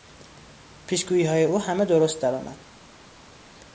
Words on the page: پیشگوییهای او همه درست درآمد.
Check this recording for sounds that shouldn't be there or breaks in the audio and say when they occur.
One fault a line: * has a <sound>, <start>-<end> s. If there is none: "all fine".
all fine